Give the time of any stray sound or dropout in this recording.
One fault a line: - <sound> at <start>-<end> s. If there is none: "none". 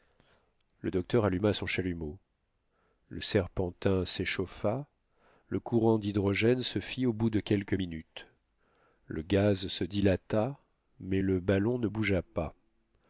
none